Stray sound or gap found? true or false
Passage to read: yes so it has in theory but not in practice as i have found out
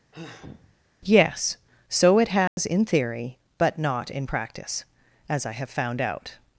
true